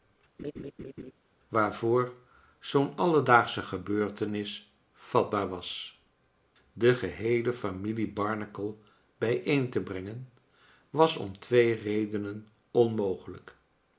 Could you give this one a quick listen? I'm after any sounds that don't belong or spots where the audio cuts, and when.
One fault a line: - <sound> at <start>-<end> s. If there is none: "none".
- laugh at 0.4-1.1 s